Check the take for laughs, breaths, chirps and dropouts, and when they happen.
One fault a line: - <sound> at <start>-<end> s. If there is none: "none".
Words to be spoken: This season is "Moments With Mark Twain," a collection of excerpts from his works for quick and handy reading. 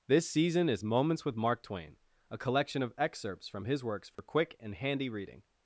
- dropout at 4.2-4.2 s